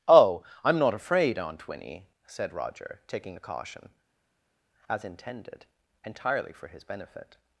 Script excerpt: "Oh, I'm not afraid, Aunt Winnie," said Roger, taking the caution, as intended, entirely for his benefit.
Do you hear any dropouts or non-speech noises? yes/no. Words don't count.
no